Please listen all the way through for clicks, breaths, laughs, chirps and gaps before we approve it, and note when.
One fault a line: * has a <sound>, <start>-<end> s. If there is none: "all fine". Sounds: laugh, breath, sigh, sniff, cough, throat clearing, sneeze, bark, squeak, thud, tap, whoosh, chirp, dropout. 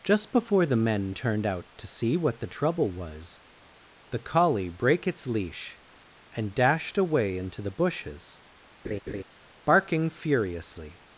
* has a laugh, 8.8-9.2 s